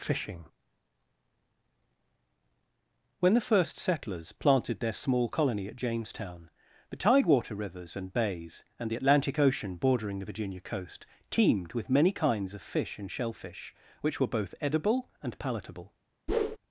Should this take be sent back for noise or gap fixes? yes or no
yes